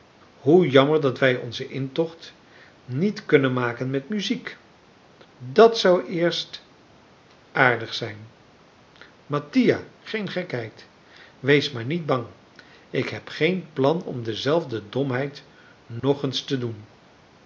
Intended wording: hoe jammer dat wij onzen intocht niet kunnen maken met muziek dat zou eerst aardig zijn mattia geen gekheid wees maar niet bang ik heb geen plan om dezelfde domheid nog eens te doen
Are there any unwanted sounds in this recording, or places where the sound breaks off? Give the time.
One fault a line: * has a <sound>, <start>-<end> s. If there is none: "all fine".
* has a dropout, 16.0-16.0 s